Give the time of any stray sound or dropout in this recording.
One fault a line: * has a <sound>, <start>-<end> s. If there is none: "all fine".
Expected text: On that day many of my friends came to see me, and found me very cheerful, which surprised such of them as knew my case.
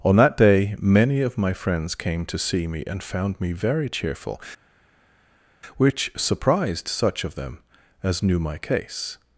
all fine